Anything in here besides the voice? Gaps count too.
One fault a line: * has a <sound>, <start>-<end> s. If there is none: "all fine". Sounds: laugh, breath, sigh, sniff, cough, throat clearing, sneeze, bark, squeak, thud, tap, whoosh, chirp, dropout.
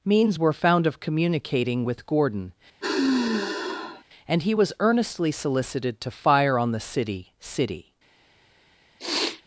* has a sigh, 2.8-4.0 s
* has a sniff, 9.0-9.4 s